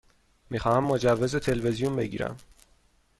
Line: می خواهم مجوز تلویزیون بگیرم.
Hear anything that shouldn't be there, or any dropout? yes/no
no